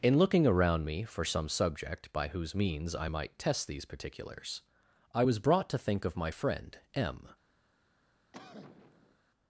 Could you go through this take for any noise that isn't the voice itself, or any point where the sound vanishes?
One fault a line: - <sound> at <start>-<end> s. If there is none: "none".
- cough at 8.3-9.2 s